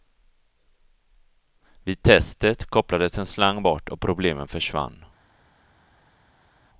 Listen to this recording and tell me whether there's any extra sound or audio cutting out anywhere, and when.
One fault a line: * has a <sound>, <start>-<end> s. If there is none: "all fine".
all fine